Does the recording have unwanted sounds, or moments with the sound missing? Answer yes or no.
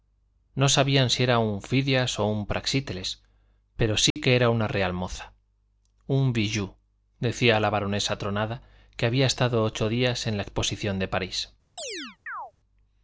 yes